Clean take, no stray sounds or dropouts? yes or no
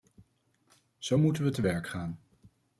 yes